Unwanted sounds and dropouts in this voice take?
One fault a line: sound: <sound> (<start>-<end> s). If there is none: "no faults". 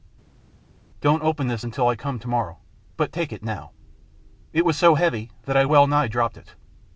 no faults